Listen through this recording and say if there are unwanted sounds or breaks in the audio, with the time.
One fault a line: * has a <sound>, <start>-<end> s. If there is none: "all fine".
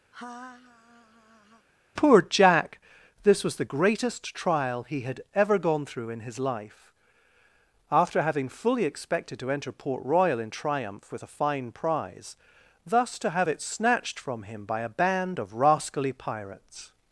* has a laugh, 0.1-1.7 s